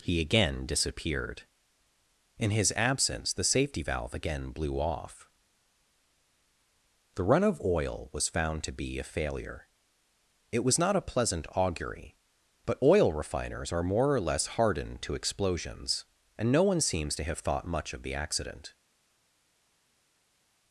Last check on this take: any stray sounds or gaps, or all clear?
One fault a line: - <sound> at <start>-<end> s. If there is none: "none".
none